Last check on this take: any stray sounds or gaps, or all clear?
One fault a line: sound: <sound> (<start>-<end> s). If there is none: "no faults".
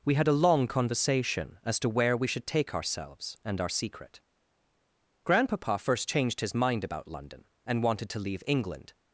no faults